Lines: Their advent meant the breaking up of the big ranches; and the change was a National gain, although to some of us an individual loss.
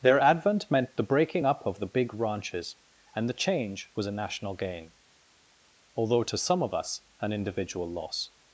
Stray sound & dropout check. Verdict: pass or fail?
pass